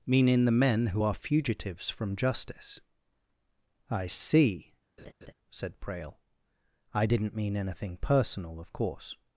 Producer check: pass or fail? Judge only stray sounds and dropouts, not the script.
fail